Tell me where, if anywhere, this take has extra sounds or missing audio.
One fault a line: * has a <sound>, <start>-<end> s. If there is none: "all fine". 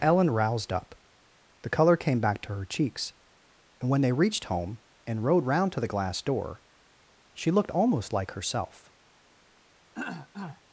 * has a throat clearing, 9.9-10.6 s